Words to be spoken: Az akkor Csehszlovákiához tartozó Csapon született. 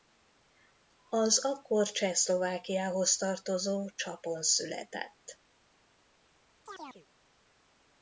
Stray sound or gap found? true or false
true